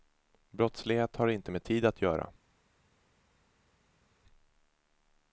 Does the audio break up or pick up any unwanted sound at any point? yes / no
no